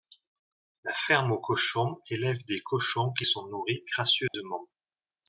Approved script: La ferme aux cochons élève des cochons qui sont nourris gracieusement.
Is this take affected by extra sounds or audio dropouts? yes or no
yes